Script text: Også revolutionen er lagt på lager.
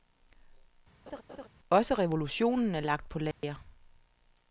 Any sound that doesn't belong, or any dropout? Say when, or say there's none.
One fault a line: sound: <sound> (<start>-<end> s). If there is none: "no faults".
sound: laugh (1.1-1.5 s)
sound: dropout (3.3-3.4 s)